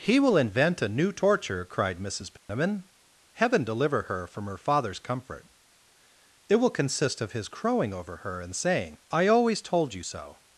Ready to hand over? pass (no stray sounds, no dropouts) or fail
fail